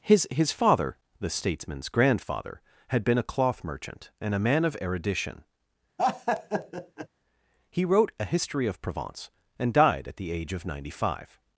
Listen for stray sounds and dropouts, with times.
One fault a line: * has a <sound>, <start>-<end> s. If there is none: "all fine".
* has a laugh, 6.0-7.1 s